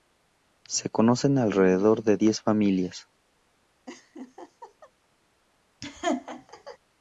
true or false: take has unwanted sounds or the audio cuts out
true